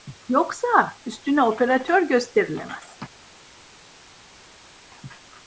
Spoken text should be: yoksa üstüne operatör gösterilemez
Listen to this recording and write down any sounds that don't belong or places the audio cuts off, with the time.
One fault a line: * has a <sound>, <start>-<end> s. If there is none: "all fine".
all fine